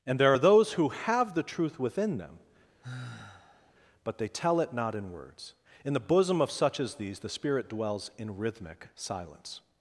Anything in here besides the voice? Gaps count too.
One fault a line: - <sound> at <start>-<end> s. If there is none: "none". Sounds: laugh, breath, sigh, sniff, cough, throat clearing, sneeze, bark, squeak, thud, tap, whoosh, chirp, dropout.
- sigh at 2.8-3.7 s